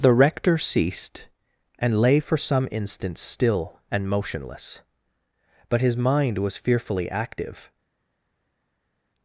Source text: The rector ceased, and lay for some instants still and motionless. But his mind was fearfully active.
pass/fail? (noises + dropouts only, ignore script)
pass